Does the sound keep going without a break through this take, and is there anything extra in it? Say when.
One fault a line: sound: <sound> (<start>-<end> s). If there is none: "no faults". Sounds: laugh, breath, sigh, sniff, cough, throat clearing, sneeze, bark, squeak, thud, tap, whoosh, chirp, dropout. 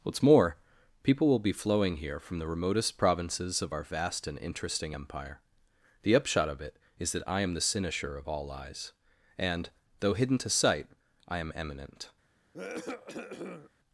sound: cough (12.5-13.7 s)